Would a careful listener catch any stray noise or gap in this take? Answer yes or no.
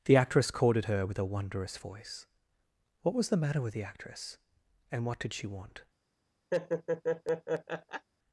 yes